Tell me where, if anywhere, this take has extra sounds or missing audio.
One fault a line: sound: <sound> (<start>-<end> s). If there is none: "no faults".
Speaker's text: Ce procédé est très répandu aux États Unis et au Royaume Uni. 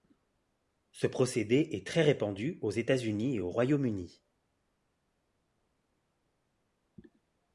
no faults